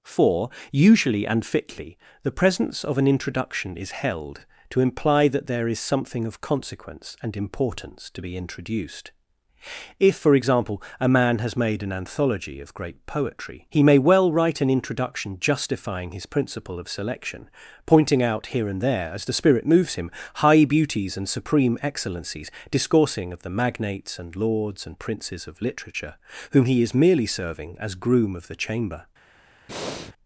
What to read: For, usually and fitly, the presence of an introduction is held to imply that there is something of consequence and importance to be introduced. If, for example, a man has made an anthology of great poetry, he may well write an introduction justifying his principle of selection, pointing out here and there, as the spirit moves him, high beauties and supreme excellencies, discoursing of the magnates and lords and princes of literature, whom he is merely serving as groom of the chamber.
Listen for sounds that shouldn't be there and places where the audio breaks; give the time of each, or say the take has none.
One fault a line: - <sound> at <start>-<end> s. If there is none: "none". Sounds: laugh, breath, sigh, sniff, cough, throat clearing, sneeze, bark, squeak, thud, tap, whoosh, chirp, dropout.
- breath at 29.7-30.1 s